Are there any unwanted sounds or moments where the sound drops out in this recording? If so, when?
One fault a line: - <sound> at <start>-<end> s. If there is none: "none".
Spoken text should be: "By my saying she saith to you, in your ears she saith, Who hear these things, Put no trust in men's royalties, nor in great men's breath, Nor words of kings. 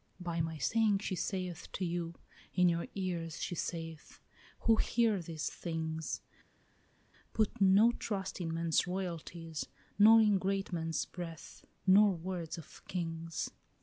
none